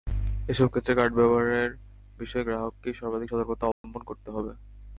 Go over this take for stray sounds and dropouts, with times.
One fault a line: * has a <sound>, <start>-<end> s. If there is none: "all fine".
* has a dropout, 3.7-3.8 s